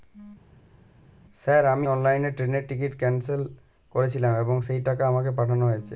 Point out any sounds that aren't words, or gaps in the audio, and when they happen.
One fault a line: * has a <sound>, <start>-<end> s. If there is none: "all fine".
all fine